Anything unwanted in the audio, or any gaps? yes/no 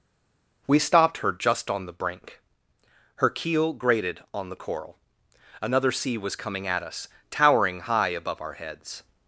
no